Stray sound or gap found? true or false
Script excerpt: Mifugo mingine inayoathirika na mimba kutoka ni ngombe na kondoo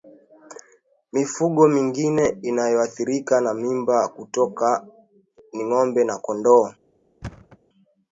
true